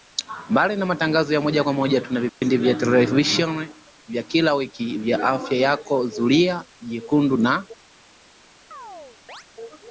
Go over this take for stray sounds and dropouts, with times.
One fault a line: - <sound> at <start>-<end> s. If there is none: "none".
- dropout at 2.3-2.4 s
- chirp at 8.7-9.4 s